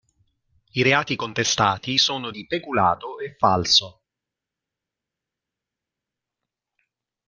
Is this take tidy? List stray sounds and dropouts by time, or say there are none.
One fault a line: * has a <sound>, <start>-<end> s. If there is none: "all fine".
all fine